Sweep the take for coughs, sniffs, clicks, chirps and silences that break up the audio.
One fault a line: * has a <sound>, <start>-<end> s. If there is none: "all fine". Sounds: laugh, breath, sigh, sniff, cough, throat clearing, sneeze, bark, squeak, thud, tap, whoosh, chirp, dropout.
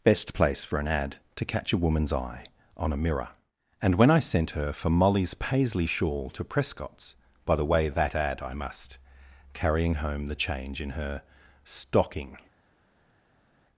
all fine